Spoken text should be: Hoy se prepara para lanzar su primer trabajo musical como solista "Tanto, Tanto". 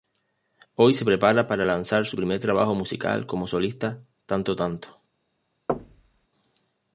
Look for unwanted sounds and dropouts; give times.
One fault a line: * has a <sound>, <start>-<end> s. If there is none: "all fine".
* has a thud, 5.7-6.3 s